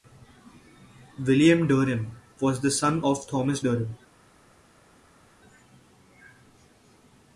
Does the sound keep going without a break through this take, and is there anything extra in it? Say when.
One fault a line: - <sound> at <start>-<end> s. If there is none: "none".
none